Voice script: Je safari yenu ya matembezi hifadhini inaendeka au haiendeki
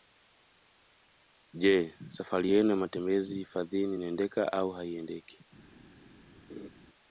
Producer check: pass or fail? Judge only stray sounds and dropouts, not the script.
fail